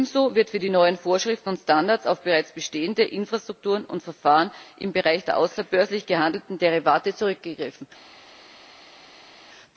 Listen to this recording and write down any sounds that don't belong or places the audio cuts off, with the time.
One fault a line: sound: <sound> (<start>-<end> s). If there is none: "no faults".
no faults